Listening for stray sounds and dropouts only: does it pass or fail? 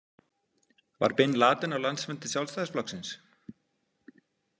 pass